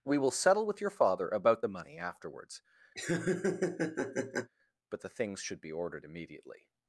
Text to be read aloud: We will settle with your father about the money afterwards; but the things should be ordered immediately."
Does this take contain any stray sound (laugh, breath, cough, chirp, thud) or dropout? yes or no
yes